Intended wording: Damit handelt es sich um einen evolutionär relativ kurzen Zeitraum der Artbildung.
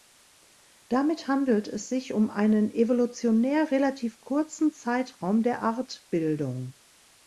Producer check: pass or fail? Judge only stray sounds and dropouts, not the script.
pass